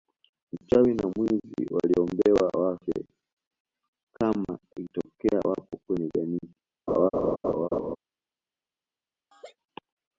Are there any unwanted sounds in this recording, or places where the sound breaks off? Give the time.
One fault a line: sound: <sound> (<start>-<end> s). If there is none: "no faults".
sound: laugh (6.9-8.0 s)
sound: laugh (9.3-9.6 s)